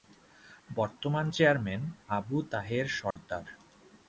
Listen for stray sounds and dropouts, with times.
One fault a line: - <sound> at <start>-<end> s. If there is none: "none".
- dropout at 3.1-3.2 s